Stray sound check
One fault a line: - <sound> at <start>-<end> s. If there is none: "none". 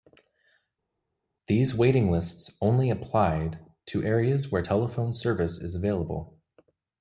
none